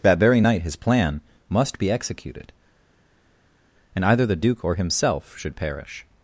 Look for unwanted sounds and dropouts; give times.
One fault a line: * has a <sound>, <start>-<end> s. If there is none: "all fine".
all fine